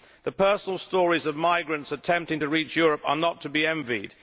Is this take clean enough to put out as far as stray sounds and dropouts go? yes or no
yes